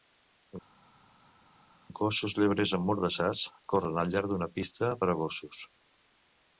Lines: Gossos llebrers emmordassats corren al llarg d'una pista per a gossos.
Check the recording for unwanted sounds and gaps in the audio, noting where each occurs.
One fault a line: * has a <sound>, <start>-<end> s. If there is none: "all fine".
all fine